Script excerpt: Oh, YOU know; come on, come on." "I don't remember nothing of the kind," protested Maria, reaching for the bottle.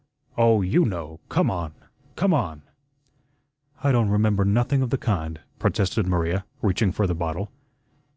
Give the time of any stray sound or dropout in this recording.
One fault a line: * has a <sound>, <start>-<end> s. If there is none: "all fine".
all fine